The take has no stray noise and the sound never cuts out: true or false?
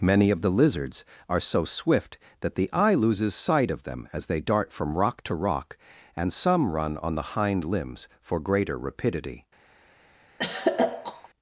false